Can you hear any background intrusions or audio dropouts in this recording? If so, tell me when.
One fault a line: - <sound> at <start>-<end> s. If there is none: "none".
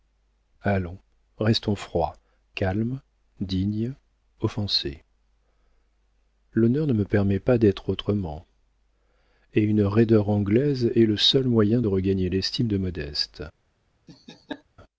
- laugh at 14.1-14.6 s